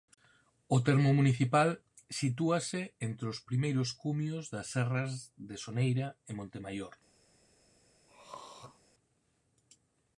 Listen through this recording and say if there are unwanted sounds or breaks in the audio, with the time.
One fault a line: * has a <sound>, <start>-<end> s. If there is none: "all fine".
* has a throat clearing, 8.1-8.8 s